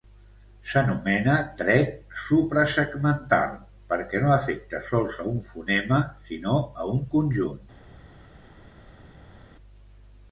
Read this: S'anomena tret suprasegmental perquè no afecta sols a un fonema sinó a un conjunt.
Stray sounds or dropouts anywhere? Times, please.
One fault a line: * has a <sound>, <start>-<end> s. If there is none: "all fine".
all fine